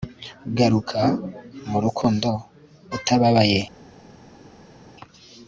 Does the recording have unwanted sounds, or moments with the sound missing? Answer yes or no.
no